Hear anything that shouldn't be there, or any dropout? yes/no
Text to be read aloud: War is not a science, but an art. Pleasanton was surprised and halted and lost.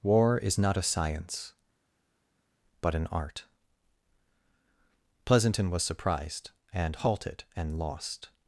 no